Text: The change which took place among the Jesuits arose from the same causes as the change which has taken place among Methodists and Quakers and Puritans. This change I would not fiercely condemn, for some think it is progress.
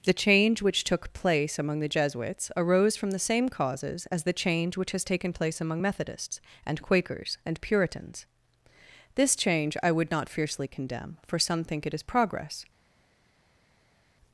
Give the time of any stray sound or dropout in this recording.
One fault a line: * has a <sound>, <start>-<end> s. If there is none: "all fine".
all fine